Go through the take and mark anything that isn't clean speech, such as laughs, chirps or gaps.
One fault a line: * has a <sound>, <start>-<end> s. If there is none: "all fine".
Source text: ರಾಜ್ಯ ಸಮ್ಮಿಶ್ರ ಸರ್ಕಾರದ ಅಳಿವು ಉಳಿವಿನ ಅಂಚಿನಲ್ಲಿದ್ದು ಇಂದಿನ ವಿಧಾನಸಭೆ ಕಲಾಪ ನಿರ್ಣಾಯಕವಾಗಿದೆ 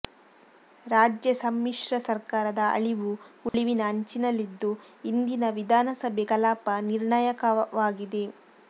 * has a dropout, 3.5-3.5 s